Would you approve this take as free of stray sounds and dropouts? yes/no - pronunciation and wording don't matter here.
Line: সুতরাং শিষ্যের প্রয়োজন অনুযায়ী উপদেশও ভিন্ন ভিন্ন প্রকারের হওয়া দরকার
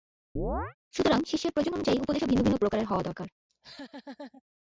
no